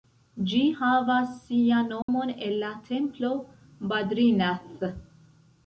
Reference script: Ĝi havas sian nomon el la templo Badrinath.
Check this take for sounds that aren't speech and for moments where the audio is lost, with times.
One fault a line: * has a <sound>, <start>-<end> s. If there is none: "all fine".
* has a dropout, 2.0-2.1 s